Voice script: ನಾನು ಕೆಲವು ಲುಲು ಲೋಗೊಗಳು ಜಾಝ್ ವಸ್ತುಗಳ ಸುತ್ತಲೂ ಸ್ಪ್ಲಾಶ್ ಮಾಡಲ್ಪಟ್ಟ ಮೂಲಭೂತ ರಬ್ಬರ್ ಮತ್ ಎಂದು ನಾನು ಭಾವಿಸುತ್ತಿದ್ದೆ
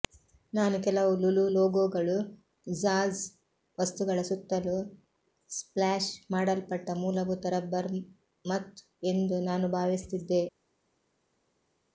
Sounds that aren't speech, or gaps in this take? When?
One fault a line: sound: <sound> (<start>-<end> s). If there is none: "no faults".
no faults